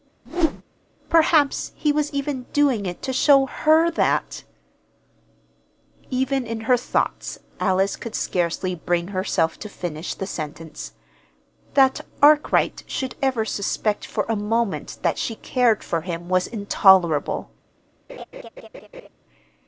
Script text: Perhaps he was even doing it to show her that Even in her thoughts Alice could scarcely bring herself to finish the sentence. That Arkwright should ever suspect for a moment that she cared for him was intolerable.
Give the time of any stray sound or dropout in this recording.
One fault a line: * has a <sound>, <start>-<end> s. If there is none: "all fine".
* has a whoosh, 0.3-0.6 s
* has a laugh, 18.1-19.1 s